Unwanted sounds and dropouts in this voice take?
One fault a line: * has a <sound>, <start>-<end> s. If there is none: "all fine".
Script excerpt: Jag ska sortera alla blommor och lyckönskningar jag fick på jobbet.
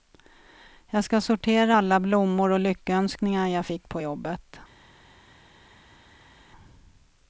all fine